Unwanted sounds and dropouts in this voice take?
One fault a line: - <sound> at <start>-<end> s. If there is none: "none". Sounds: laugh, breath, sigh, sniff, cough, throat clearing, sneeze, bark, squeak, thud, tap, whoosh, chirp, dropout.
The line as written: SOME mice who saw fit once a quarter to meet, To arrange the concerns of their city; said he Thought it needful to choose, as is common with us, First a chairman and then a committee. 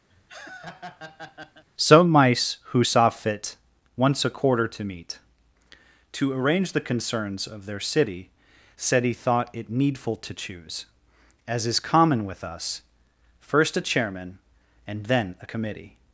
- laugh at 0.1-1.6 s